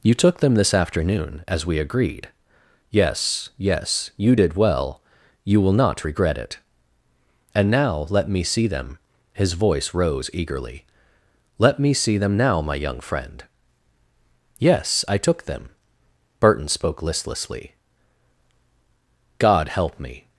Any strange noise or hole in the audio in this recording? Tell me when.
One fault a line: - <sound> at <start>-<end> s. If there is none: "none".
none